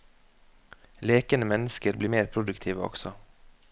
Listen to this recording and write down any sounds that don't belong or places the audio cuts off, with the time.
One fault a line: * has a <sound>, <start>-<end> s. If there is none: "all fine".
all fine